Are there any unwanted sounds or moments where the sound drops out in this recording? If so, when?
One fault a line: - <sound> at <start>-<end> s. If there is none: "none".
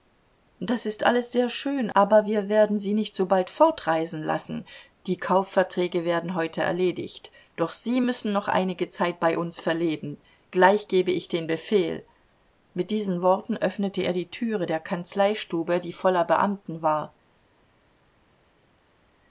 none